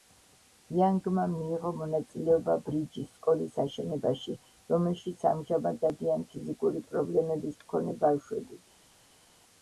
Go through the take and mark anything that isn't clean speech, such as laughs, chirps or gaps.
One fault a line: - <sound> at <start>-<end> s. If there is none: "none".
none